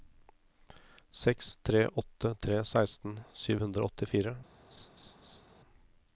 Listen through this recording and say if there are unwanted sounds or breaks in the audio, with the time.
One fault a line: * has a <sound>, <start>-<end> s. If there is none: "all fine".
* has a laugh, 4.7-5.4 s